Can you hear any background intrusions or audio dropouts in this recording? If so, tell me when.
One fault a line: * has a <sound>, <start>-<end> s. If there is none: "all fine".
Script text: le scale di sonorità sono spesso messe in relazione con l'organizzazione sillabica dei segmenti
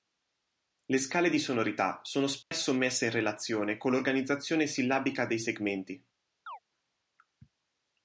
* has a dropout, 2.4-2.5 s
* has a chirp, 6.5-6.6 s